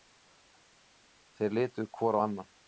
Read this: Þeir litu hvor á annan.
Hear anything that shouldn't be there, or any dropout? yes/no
no